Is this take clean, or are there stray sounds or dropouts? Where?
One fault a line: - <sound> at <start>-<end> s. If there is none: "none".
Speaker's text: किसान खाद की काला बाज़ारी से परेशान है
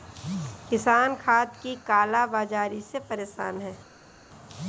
none